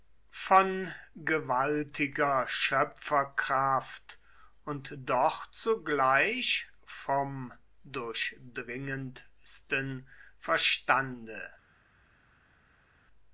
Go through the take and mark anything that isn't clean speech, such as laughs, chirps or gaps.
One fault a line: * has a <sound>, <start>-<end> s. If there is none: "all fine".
all fine